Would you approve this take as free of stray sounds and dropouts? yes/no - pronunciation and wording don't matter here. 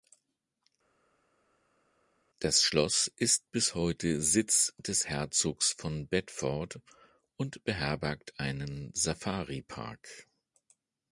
yes